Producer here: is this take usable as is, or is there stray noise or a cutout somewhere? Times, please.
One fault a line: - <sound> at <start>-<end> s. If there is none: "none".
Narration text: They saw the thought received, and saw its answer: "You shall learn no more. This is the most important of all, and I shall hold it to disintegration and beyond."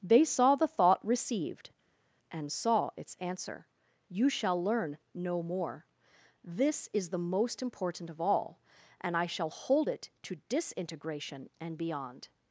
none